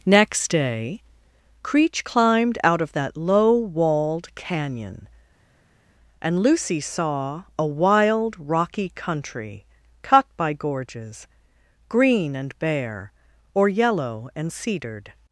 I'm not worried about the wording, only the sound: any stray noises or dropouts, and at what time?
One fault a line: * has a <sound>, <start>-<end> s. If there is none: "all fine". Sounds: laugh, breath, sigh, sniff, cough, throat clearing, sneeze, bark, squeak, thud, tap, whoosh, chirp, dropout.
all fine